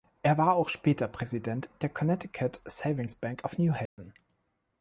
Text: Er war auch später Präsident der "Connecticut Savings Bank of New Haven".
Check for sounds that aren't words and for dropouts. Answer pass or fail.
fail